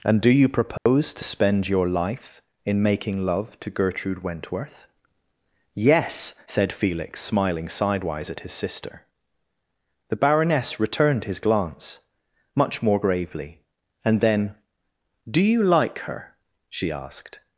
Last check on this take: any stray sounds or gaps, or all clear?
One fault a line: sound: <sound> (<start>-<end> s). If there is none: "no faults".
sound: dropout (0.8-0.9 s)